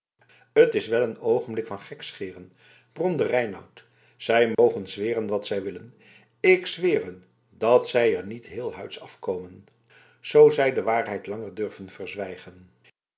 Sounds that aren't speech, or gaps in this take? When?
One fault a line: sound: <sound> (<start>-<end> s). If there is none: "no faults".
sound: dropout (4.5-4.6 s)